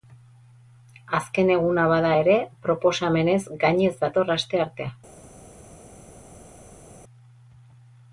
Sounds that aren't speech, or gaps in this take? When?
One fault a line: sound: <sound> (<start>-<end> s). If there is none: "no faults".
no faults